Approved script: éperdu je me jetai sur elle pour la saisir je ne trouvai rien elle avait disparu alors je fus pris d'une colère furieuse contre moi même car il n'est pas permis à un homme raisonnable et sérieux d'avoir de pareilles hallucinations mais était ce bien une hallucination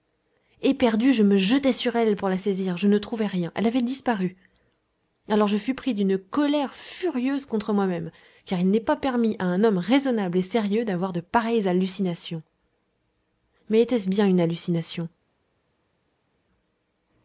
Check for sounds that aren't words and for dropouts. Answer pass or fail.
pass